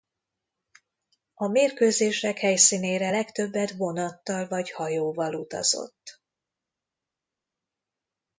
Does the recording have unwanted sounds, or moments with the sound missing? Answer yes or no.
no